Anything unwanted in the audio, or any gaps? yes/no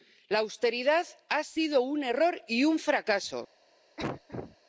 yes